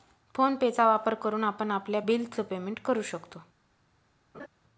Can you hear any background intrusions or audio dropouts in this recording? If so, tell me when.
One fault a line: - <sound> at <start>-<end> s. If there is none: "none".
- laugh at 4.3-4.5 s